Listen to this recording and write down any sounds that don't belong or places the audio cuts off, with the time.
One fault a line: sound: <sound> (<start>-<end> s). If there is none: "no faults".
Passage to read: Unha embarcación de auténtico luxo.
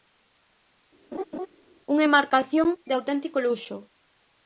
sound: laugh (1.1-1.5 s)